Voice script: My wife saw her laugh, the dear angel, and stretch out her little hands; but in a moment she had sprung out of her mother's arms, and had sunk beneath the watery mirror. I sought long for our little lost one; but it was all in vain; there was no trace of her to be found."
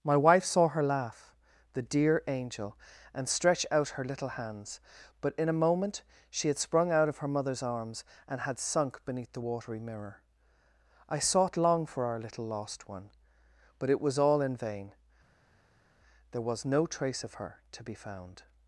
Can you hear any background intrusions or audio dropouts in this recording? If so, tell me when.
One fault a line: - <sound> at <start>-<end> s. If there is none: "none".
none